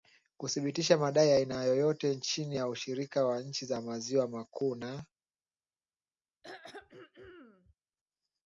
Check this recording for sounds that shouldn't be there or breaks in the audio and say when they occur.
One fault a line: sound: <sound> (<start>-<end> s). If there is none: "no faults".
sound: throat clearing (6.4-7.7 s)